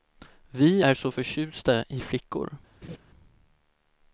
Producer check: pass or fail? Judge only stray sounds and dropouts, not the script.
fail